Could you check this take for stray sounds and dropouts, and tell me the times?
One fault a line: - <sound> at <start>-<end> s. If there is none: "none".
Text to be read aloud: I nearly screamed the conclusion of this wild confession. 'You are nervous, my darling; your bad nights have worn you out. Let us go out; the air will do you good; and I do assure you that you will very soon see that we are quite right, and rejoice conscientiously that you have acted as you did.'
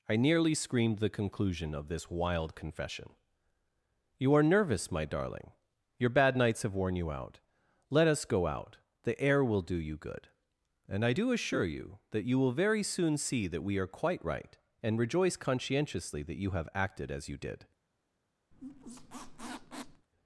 - squeak at 18.5-20.1 s